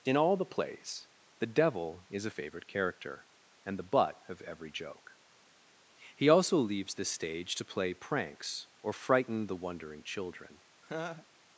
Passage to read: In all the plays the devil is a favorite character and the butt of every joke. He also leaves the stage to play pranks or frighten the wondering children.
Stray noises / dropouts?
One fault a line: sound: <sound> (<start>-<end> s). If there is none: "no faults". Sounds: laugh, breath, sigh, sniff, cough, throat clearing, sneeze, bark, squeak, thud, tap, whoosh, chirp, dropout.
sound: laugh (10.8-11.3 s)